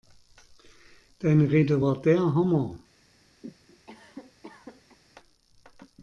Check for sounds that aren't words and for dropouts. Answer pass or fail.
fail